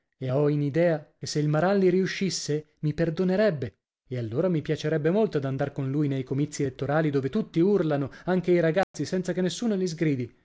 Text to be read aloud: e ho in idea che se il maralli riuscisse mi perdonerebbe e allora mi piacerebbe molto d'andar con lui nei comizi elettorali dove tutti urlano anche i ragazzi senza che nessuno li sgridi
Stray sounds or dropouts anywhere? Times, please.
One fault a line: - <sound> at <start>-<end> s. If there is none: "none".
- dropout at 8.8-8.9 s